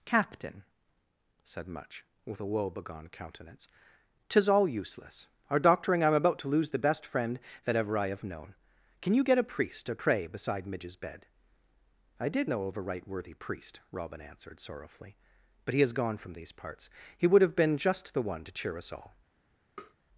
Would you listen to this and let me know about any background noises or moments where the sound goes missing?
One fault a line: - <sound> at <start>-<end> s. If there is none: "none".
- tap at 19.8-19.9 s